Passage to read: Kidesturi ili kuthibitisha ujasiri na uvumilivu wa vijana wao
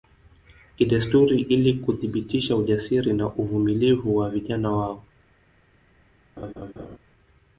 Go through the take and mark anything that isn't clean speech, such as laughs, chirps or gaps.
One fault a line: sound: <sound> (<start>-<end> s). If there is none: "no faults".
sound: laugh (6.4-7.0 s)